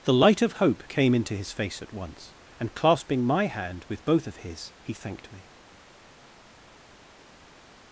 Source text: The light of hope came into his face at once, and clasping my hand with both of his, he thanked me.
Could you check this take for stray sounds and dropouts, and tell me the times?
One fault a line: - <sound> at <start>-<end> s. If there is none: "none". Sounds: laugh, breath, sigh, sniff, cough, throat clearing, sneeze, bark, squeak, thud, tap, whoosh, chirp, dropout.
none